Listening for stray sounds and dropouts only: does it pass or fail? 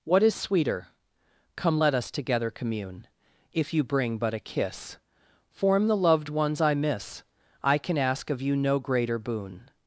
pass